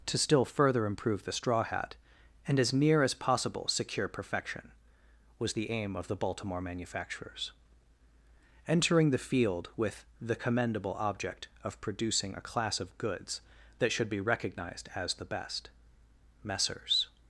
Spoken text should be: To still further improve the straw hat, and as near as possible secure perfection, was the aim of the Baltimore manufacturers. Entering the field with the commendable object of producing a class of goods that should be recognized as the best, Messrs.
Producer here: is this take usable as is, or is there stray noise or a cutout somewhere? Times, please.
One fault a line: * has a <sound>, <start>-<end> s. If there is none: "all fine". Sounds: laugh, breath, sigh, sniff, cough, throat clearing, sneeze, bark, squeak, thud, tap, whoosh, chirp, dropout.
all fine